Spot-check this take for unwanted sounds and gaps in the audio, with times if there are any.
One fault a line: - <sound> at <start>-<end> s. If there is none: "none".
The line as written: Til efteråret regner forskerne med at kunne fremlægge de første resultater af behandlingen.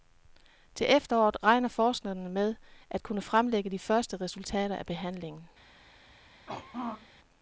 - throat clearing at 6.5-7.1 s